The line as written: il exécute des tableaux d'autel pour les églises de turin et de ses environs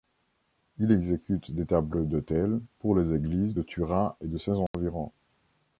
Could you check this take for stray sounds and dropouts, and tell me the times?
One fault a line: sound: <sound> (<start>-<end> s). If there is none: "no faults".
sound: dropout (4.7-4.7 s)